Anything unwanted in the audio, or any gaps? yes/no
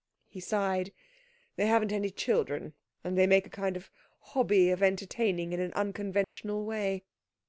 yes